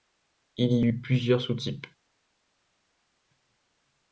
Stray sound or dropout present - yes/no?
no